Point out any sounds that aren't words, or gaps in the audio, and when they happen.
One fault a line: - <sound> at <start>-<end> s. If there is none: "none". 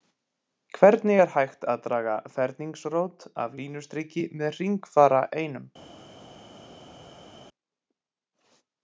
none